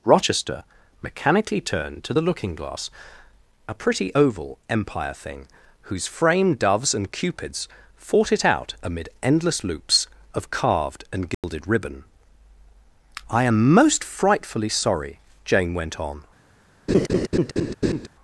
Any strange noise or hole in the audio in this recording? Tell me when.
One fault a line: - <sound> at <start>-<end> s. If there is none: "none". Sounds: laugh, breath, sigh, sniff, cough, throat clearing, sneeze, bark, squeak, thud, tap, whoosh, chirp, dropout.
- dropout at 11.3-11.4 s
- laugh at 16.9-18.1 s